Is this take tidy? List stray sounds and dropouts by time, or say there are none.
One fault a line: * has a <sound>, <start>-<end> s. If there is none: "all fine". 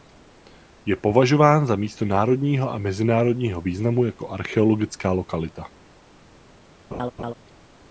* has a laugh, 6.9-7.3 s